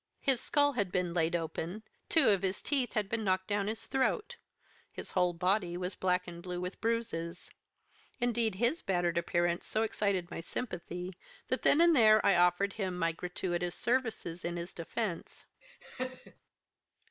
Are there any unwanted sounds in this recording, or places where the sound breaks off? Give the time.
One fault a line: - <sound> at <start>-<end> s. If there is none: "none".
- laugh at 15.6-16.4 s